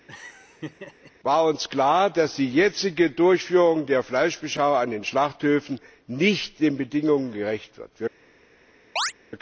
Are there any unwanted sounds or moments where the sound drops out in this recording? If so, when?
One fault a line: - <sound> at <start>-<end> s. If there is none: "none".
- laugh at 0.1-1.1 s
- chirp at 9.0-9.1 s